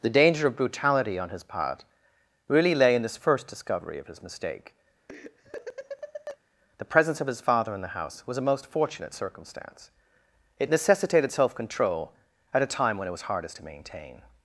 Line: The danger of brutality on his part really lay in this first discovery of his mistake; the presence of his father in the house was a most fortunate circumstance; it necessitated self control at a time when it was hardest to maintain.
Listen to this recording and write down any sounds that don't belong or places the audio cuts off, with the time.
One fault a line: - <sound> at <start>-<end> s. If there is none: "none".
- laugh at 5.1-6.4 s